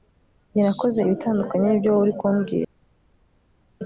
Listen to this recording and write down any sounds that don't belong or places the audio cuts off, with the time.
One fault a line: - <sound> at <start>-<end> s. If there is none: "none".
none